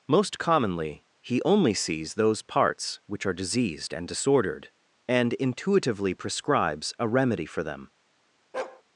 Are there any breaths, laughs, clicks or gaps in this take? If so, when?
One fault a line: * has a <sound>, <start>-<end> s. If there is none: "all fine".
* has a bark, 8.5-8.8 s